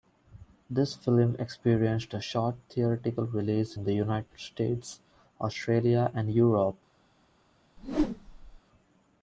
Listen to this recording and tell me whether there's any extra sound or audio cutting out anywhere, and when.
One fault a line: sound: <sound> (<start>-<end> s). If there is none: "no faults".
sound: whoosh (7.8-8.6 s)